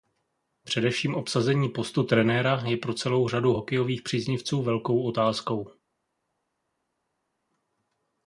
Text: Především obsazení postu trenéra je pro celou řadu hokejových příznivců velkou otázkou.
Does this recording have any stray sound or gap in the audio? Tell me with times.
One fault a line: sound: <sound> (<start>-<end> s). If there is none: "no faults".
no faults